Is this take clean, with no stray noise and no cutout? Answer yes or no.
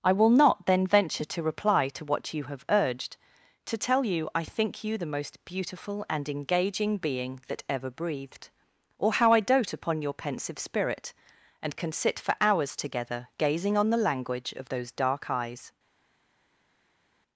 yes